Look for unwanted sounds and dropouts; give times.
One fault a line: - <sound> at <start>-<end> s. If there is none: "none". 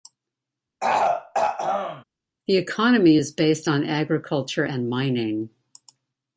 - throat clearing at 0.8-2.0 s